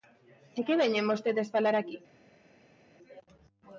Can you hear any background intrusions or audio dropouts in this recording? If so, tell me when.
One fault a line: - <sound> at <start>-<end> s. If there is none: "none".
none